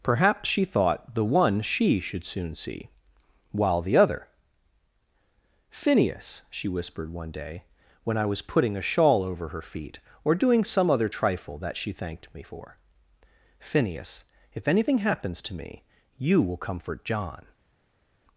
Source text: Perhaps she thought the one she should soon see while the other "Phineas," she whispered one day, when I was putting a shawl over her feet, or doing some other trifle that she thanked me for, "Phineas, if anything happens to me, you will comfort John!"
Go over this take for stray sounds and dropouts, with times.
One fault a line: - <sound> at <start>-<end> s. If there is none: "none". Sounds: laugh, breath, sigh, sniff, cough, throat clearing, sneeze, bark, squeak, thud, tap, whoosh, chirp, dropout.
none